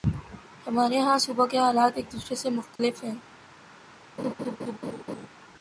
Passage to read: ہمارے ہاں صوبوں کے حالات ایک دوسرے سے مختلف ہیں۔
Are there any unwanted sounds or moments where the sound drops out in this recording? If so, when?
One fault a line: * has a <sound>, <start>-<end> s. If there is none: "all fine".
* has a dropout, 2.8-2.8 s
* has a laugh, 4.2-5.3 s